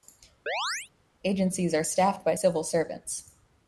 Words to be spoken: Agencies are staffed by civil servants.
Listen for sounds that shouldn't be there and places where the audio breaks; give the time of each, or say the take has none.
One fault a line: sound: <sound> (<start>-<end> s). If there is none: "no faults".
sound: chirp (0.5-0.9 s)